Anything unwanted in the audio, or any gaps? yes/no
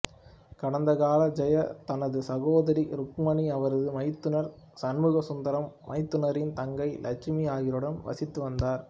no